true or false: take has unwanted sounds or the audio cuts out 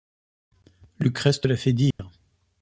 true